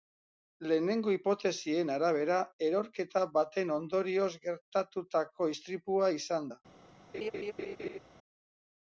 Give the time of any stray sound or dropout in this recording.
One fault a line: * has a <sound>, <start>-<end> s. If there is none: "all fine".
* has a laugh, 7.1-8.0 s